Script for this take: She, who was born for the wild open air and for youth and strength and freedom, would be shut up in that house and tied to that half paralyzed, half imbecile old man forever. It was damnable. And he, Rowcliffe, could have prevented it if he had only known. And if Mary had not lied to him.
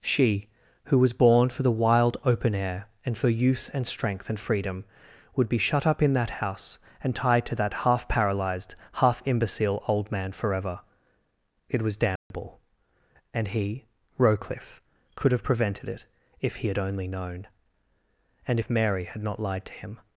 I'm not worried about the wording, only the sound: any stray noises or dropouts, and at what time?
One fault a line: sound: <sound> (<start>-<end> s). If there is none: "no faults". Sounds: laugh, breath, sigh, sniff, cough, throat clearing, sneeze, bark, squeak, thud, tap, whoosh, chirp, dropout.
sound: dropout (12.2-12.3 s)